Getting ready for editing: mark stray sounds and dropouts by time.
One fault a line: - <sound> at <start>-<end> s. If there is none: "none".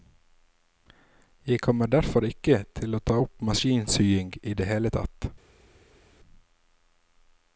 none